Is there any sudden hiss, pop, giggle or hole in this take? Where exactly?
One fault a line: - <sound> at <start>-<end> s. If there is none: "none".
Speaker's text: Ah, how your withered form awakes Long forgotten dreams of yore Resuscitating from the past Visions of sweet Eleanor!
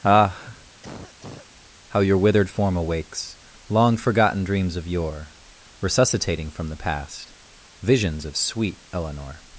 - cough at 0.8-1.5 s